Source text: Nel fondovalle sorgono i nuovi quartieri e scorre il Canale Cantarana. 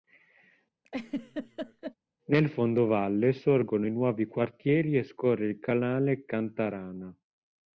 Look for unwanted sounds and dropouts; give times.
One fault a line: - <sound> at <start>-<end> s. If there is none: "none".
- laugh at 0.8-1.9 s